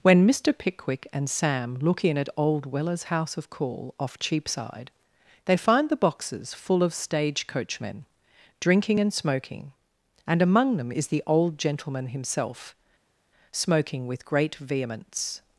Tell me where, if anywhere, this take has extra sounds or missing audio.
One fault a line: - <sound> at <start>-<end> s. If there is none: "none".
none